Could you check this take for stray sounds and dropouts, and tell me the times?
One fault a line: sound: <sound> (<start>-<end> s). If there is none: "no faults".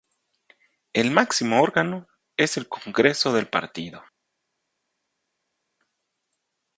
no faults